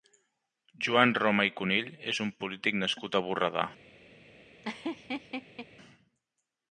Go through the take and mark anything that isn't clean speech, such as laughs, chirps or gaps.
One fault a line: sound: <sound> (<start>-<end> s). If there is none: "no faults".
sound: laugh (4.6-5.7 s)